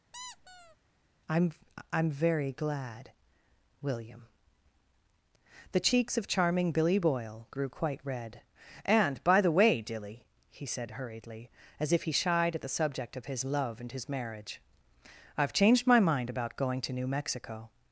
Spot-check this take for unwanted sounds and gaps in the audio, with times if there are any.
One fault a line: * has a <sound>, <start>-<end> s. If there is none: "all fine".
* has a squeak, 0.1-0.8 s